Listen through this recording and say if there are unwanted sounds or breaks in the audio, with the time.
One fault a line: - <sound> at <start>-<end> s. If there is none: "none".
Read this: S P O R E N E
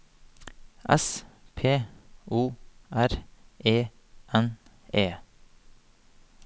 none